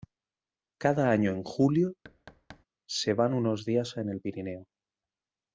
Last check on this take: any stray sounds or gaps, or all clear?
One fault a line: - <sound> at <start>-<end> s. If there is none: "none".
- thud at 2.0-2.7 s